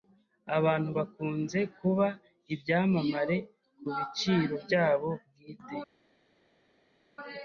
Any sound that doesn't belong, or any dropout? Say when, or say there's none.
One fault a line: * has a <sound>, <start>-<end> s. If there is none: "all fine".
all fine